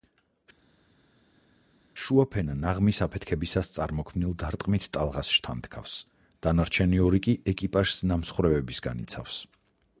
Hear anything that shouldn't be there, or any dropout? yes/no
no